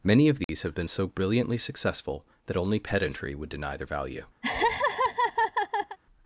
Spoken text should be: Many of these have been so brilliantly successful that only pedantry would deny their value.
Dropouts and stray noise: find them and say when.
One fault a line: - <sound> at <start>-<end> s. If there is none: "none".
- dropout at 0.4-0.5 s
- laugh at 4.4-6.0 s